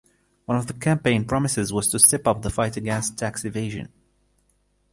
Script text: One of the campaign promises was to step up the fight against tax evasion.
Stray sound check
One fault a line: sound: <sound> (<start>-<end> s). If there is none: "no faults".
no faults